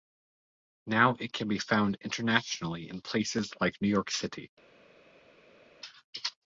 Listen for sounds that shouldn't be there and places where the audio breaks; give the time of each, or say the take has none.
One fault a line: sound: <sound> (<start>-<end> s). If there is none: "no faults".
no faults